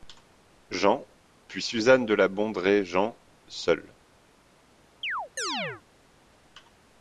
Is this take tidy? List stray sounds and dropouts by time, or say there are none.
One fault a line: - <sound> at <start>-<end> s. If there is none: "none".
- chirp at 5.0-5.8 s